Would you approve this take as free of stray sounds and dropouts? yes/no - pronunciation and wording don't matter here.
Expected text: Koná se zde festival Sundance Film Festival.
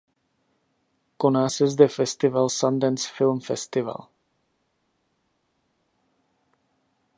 yes